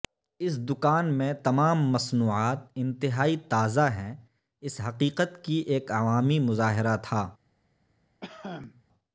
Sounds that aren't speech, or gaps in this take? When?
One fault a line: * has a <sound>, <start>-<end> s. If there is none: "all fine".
* has a cough, 8.2-8.8 s